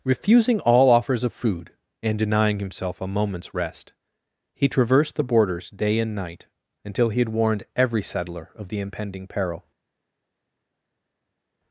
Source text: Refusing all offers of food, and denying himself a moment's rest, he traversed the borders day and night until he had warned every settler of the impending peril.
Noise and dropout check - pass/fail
pass